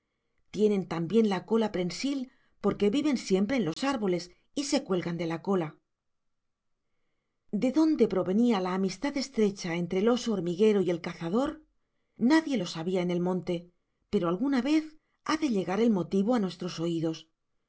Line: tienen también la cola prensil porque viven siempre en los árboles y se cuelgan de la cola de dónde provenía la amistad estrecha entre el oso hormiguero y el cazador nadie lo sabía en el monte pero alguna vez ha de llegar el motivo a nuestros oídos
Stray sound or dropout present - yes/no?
yes